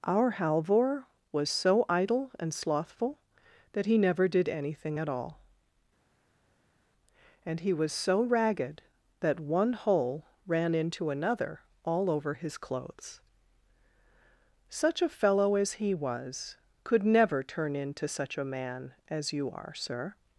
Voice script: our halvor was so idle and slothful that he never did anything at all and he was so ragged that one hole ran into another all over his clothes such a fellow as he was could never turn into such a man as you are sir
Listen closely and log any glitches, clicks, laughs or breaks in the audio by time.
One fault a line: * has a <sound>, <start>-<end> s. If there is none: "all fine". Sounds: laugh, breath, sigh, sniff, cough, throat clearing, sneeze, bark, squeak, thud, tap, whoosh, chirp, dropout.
all fine